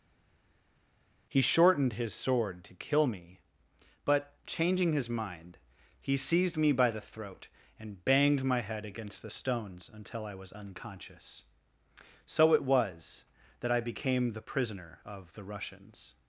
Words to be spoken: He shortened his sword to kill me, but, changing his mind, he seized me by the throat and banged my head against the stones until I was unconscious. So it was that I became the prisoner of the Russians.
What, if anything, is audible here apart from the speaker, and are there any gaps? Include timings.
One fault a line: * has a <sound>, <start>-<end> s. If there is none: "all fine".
all fine